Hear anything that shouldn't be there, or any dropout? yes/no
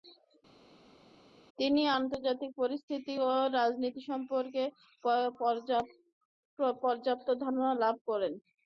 no